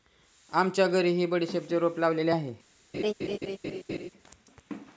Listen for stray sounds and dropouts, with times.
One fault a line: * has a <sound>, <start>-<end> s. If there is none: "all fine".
* has a laugh, 2.9-4.1 s